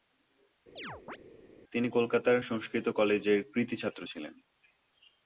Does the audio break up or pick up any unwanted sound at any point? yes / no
yes